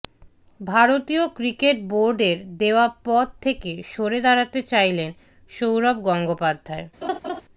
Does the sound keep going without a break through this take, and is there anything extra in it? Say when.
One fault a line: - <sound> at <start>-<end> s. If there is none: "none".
- laugh at 7.0-7.4 s